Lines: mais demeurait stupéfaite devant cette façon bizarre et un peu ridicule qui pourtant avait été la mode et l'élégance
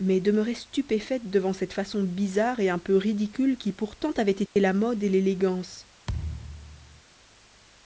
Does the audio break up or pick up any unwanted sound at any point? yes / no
yes